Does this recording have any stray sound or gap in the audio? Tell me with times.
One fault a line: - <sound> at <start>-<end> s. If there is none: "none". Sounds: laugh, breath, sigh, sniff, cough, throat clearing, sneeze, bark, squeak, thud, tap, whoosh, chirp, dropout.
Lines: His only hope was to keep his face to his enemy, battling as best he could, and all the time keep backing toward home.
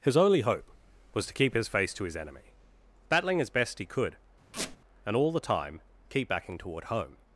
- squeak at 4.5-4.8 s